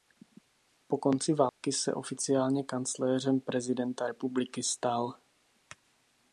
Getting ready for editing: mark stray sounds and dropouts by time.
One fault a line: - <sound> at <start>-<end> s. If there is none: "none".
- dropout at 1.5-1.6 s